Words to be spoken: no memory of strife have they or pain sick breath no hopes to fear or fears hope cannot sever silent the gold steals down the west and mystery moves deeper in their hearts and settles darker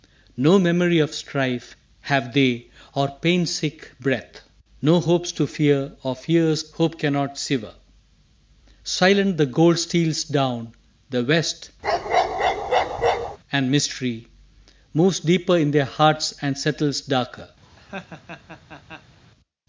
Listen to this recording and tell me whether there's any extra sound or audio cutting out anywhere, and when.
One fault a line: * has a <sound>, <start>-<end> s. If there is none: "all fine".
* has a bark, 11.8-13.4 s
* has a laugh, 17.6-19.2 s